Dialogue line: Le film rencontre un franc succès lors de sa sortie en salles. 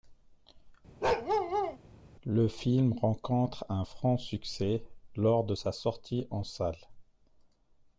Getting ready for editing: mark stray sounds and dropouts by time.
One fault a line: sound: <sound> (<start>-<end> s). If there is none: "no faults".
sound: bark (1.0-1.8 s)